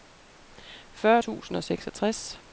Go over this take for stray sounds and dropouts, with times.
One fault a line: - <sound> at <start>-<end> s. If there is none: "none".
none